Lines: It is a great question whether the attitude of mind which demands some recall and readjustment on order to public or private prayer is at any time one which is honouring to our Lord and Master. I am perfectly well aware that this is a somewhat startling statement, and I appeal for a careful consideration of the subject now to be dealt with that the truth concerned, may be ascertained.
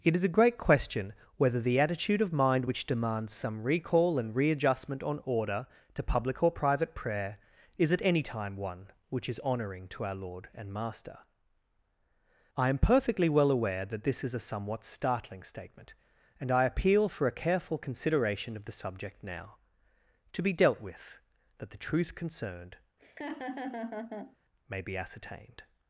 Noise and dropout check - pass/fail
fail